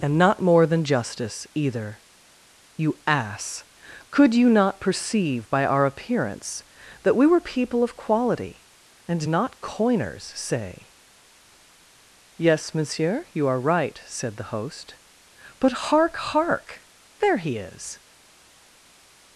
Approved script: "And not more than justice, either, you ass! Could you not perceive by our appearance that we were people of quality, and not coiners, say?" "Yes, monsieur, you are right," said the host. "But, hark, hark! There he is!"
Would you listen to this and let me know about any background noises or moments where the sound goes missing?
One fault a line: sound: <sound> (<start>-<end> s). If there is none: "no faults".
no faults